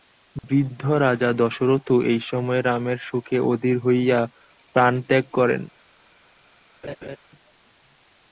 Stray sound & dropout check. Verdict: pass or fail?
fail